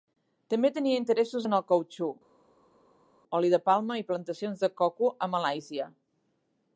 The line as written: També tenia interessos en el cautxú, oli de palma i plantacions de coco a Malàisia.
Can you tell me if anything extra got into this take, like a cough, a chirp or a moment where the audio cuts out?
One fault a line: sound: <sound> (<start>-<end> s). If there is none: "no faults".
no faults